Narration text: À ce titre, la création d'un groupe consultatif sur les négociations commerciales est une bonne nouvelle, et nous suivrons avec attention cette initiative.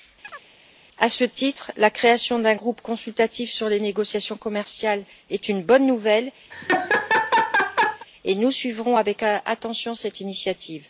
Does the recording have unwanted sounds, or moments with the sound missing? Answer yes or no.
yes